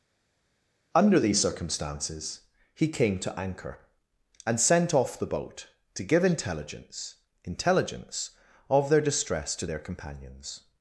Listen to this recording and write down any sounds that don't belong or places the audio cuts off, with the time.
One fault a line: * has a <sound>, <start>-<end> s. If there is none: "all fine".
all fine